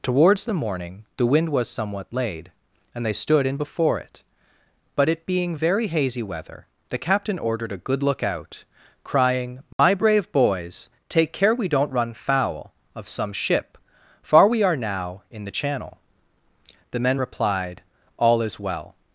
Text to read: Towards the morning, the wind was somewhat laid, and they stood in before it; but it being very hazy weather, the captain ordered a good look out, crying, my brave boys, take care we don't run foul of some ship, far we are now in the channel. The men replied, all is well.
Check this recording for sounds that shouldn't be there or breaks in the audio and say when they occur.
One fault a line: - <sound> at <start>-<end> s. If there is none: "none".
- dropout at 9.7-9.8 s